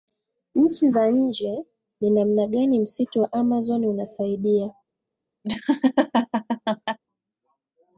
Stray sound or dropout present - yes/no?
yes